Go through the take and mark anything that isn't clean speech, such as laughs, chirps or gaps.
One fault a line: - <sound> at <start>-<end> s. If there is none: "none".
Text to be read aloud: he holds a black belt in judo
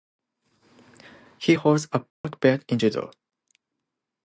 - dropout at 2.1-2.2 s